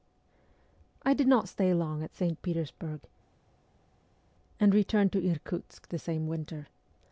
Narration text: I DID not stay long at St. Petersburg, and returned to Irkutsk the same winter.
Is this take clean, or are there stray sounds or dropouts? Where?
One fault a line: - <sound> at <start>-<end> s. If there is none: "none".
none